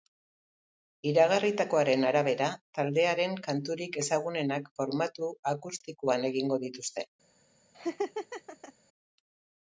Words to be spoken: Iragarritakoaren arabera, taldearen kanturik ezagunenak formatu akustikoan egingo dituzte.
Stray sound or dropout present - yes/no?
yes